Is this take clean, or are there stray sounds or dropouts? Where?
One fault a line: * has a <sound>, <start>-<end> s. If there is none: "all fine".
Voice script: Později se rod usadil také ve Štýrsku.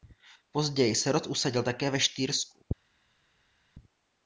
all fine